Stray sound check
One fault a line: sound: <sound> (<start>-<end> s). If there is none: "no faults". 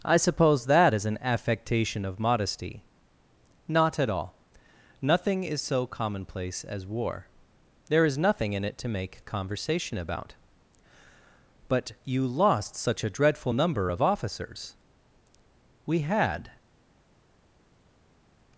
no faults